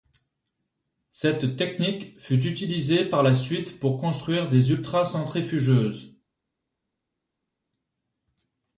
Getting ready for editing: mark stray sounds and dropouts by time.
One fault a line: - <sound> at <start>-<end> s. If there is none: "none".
none